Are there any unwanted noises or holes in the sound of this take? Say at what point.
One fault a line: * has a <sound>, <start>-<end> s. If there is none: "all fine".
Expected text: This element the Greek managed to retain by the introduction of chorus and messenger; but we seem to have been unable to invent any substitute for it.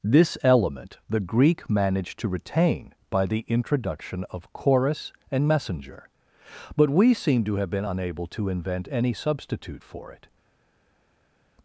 all fine